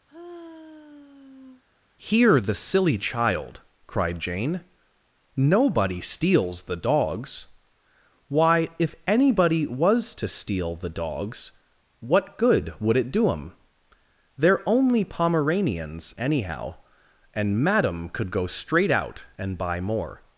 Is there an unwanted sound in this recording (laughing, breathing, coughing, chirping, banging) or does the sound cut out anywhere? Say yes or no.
yes